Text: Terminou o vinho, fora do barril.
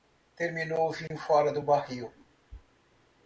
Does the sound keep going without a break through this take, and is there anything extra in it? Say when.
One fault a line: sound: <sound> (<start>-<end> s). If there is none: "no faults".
sound: dropout (1.1-1.1 s)